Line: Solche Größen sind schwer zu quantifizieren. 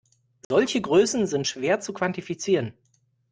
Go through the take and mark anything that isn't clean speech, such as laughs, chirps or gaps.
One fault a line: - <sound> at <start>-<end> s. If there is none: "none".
- dropout at 0.4-0.5 s